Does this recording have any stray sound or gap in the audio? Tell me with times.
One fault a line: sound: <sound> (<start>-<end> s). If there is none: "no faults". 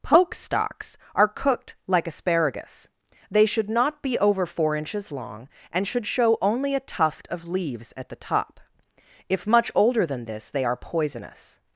no faults